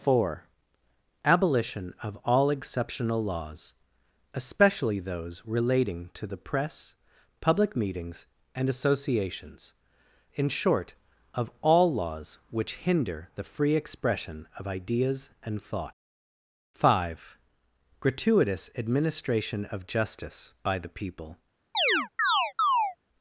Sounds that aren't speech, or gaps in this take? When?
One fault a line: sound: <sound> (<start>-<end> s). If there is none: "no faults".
sound: chirp (21.7-23.0 s)